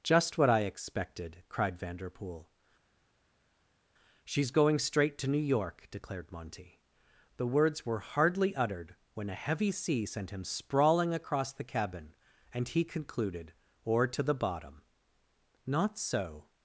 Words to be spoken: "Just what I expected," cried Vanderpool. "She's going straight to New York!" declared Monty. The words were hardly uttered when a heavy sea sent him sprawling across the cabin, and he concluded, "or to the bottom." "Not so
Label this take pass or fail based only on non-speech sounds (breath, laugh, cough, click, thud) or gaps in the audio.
pass